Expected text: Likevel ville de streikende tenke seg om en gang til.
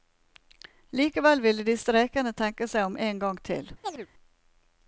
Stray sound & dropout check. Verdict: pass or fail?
fail